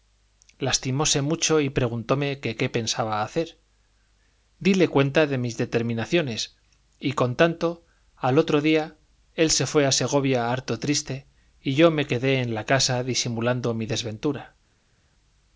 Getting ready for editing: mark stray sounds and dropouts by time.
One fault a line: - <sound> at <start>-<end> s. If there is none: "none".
none